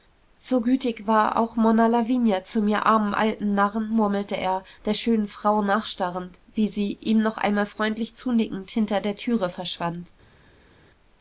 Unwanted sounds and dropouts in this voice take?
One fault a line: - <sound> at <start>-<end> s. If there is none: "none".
none